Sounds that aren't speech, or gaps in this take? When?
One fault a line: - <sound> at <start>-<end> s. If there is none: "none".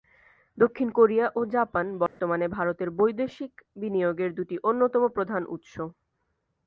- dropout at 2.1-2.2 s